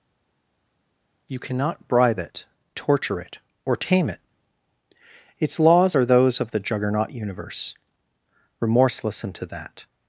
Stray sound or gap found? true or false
false